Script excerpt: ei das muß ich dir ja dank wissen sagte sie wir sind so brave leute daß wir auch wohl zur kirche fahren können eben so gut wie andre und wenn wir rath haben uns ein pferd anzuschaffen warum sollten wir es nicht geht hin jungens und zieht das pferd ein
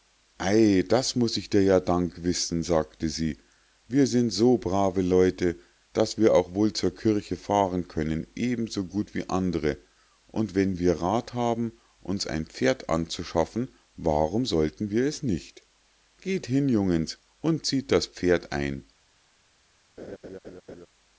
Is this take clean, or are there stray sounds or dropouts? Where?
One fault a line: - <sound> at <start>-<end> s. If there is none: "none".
- laugh at 20.0-20.9 s